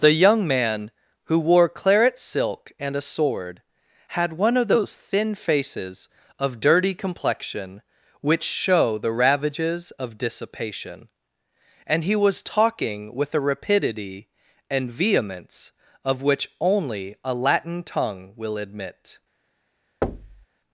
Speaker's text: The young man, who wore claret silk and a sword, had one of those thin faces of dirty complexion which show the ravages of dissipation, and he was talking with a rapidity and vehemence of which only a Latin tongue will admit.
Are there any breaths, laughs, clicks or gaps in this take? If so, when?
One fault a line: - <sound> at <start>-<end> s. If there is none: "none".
- thud at 20.0-20.5 s